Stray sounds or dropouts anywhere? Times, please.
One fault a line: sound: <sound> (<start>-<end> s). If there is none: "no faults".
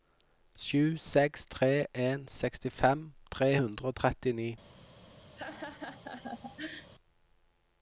sound: laugh (5.4-6.9 s)